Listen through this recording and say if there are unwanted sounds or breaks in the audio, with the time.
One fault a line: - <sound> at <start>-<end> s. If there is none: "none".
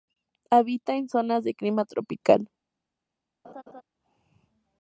- laugh at 3.4-3.8 s